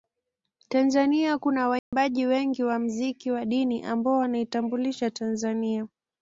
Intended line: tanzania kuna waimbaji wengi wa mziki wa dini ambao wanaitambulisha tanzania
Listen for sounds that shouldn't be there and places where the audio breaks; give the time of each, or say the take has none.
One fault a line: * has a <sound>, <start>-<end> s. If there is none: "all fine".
* has a dropout, 1.8-1.9 s